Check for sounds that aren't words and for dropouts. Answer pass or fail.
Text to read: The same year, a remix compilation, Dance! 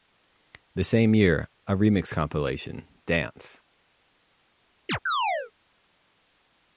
fail